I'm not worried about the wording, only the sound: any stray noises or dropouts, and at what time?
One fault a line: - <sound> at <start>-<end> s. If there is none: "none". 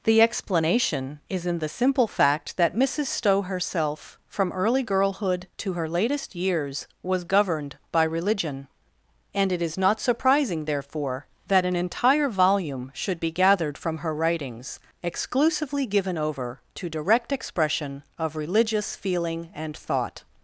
none